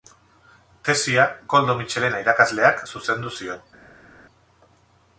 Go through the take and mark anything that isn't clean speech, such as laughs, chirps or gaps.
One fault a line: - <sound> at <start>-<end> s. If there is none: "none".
none